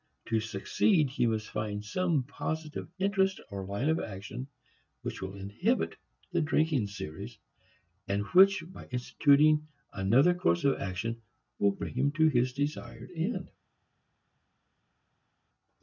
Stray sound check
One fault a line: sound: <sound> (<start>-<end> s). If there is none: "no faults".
no faults